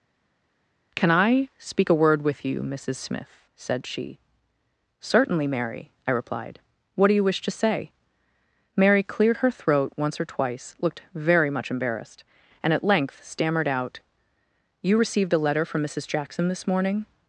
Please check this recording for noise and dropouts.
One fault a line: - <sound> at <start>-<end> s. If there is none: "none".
none